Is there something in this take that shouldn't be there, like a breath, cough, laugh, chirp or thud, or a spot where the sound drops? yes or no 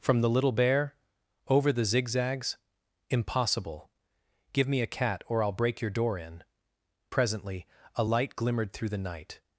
no